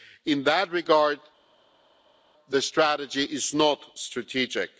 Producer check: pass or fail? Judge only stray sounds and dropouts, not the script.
pass